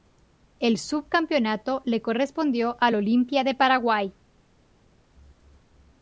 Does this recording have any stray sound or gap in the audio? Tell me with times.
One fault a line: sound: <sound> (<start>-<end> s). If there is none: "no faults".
no faults